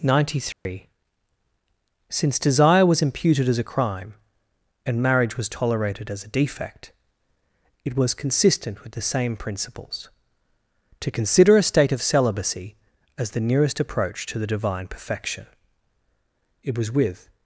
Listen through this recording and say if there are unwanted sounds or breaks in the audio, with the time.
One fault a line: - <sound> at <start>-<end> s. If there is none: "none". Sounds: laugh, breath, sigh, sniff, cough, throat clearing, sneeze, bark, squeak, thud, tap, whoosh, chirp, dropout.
- dropout at 0.5-0.7 s